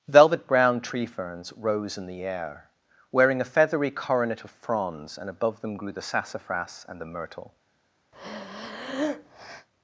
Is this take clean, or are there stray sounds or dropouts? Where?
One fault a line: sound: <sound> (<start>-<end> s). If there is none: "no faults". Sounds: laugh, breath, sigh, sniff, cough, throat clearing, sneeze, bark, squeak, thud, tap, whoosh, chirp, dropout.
sound: breath (8.1-9.7 s)